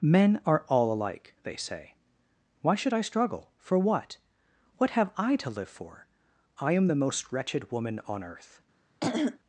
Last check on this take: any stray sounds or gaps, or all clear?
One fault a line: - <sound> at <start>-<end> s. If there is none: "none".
- throat clearing at 9.0-9.4 s